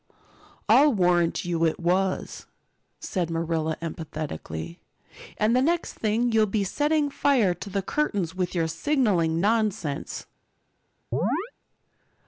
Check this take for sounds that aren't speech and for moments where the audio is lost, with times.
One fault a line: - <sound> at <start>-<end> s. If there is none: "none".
- chirp at 11.1-11.5 s